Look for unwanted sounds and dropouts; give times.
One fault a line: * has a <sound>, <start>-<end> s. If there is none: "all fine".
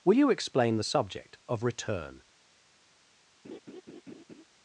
* has a laugh, 3.4-4.4 s